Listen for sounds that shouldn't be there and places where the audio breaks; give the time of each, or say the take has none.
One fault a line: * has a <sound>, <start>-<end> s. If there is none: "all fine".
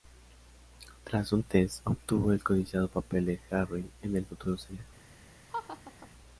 * has a laugh, 5.5-6.1 s